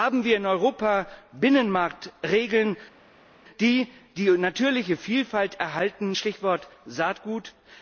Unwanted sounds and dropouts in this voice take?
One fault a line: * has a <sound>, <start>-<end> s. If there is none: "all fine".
all fine